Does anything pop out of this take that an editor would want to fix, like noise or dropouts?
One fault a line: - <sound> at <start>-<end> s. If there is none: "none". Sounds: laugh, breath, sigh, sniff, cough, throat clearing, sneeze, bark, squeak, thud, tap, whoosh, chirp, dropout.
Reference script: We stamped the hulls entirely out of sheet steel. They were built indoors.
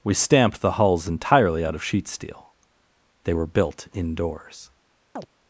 - chirp at 5.2-5.3 s